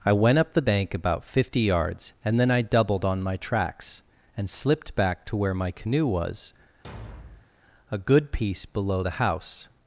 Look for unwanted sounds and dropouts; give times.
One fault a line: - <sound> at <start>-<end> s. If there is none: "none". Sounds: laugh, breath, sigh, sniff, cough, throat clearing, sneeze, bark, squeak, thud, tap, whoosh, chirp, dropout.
- thud at 6.8-7.5 s